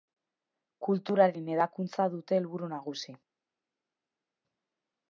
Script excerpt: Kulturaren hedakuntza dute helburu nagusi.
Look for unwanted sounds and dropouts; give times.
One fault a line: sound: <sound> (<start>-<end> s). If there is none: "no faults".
no faults